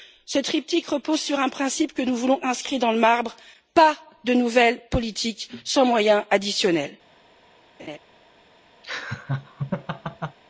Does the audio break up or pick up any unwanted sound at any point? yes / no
yes